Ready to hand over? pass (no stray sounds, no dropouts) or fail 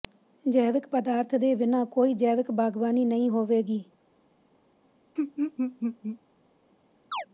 fail